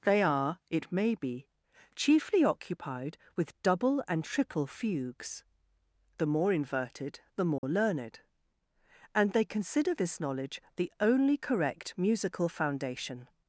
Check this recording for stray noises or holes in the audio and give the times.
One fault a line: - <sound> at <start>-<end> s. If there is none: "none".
- dropout at 7.6-7.6 s